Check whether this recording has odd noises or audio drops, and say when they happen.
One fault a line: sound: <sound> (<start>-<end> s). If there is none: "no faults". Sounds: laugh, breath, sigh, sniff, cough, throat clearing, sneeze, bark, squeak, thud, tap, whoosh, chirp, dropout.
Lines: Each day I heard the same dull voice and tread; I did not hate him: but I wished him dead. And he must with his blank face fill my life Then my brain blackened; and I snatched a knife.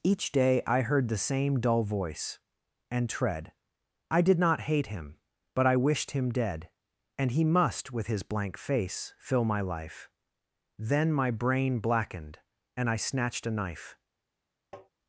sound: tap (14.7-14.9 s)